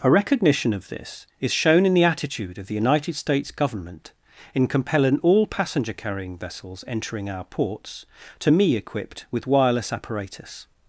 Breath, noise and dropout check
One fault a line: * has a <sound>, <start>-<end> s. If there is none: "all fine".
all fine